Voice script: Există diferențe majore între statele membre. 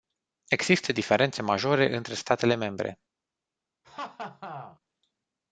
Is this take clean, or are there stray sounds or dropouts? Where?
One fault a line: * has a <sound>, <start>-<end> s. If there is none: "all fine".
* has a laugh, 3.8-4.8 s